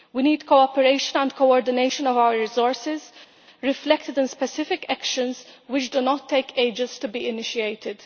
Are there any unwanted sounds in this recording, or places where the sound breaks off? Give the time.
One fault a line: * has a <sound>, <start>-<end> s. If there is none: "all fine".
all fine